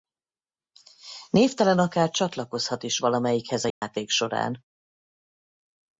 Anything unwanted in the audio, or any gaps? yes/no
yes